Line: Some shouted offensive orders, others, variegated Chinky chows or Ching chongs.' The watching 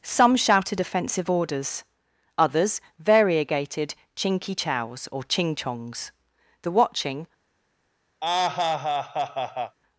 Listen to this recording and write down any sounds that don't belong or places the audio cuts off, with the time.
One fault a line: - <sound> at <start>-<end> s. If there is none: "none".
- laugh at 8.2-9.8 s